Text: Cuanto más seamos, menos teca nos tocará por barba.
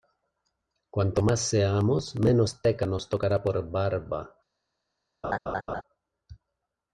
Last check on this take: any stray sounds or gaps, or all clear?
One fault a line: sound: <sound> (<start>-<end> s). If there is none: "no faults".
sound: laugh (5.2-5.8 s)